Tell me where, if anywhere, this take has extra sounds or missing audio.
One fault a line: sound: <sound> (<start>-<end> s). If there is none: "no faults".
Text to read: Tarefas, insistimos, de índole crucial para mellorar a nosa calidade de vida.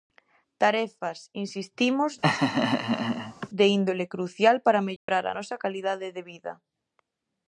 sound: laugh (2.2-3.5 s)
sound: dropout (5.0-5.1 s)